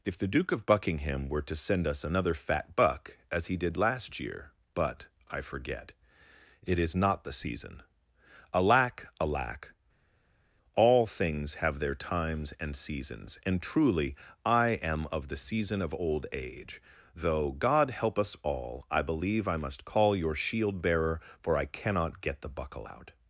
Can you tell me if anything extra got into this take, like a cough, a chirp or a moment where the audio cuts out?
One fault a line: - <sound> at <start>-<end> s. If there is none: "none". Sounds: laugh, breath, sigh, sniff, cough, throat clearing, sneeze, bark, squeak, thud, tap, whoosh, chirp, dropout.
none